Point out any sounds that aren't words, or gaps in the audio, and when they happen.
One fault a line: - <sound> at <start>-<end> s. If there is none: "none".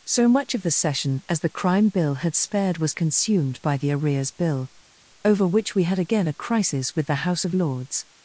none